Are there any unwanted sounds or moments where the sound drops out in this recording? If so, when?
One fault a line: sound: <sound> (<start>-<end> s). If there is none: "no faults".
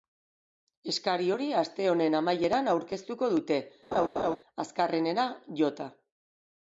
sound: laugh (3.9-4.4 s)